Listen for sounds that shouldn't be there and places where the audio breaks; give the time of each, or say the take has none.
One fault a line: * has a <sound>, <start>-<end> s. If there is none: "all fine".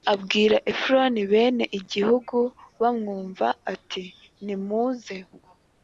all fine